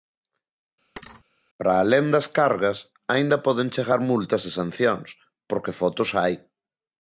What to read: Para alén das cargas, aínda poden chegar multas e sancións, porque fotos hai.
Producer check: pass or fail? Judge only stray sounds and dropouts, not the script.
fail